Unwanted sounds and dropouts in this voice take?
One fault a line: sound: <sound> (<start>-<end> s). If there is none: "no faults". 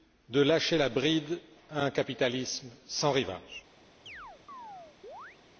sound: chirp (4.1-5.4 s)